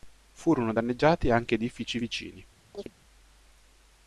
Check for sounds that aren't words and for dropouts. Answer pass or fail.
fail